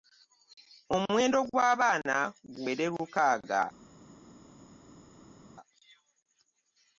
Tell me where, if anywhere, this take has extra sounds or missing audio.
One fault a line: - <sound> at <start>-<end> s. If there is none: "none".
none